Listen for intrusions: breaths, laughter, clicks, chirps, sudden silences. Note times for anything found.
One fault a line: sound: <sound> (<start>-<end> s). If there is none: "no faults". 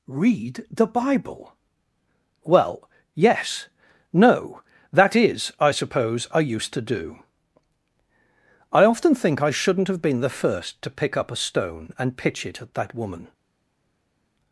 no faults